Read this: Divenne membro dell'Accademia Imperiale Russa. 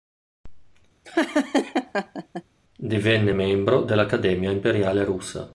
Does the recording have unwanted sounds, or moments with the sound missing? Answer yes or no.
yes